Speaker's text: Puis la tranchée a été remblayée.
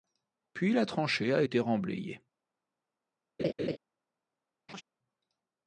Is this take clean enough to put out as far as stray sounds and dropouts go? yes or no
no